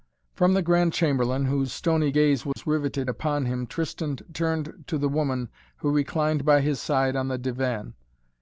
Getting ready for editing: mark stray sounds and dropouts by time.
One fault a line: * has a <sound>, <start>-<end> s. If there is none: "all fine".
* has a dropout, 2.5-2.6 s